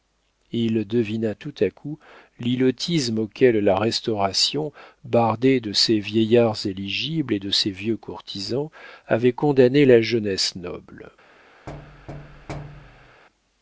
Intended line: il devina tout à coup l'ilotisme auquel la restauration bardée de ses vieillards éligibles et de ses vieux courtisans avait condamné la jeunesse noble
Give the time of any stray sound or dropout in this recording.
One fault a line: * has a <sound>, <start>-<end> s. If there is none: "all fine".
* has a thud, 11.7-13.2 s